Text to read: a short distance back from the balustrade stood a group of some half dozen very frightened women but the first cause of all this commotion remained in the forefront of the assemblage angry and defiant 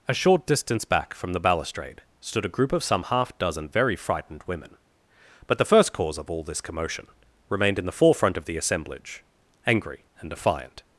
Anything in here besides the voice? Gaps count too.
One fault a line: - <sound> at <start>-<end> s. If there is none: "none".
none